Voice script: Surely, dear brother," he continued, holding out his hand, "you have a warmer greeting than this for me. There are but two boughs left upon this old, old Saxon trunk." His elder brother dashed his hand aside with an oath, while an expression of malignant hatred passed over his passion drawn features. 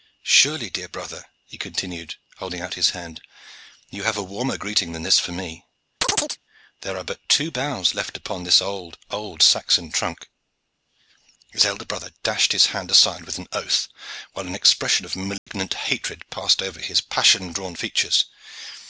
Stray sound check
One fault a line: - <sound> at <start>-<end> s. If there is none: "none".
- chirp at 6.0-6.4 s
- dropout at 15.4-15.5 s